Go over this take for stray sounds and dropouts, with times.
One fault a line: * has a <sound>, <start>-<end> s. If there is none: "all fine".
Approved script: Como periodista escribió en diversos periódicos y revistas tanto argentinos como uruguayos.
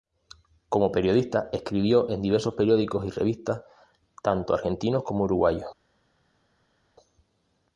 all fine